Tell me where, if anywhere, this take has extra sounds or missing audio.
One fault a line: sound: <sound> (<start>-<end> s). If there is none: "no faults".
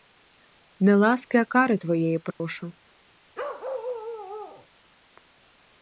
sound: dropout (2.3-2.4 s)
sound: bark (3.3-4.7 s)